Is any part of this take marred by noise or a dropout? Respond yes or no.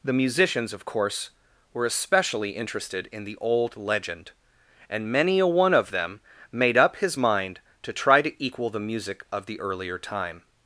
no